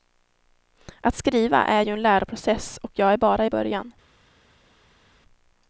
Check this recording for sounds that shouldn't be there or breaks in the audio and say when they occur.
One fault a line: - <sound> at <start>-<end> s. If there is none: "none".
none